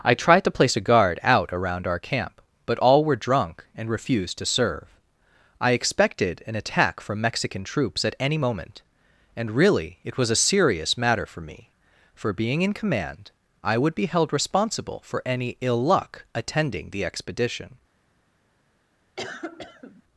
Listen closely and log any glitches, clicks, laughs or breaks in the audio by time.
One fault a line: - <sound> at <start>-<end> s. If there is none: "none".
- cough at 19.2-20.0 s